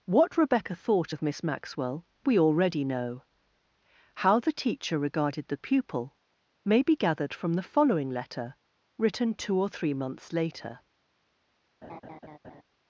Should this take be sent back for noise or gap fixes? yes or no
yes